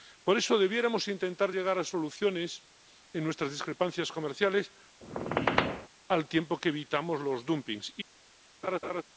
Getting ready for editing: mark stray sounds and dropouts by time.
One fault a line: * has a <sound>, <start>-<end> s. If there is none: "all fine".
* has a squeak, 5.0-5.9 s
* has a laugh, 8.6-9.0 s